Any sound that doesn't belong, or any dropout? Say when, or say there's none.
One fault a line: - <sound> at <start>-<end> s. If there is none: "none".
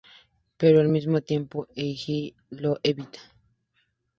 none